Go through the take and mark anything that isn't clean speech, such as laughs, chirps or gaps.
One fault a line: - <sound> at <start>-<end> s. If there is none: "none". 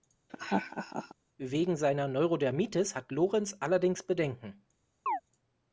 - laugh at 0.3-1.1 s
- chirp at 5.1-5.2 s